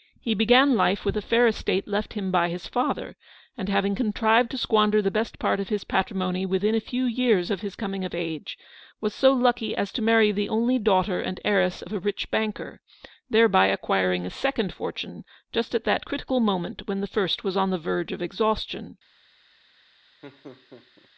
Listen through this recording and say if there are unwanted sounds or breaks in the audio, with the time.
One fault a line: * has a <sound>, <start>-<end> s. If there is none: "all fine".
* has a laugh, 20.2-21.1 s